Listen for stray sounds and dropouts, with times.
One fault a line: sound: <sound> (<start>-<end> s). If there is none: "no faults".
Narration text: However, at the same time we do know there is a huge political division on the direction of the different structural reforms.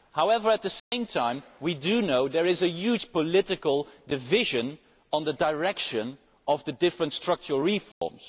sound: dropout (0.8-0.9 s)
sound: dropout (7.9-8.0 s)